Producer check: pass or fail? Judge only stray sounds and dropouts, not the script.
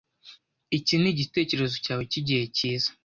pass